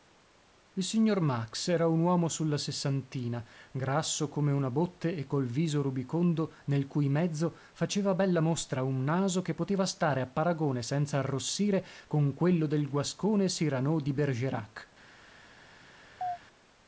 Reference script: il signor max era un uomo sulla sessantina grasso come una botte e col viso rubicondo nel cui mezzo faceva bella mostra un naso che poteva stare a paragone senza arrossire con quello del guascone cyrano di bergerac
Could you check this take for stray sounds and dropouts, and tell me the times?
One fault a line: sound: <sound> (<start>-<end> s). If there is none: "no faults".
sound: chirp (16.2-16.4 s)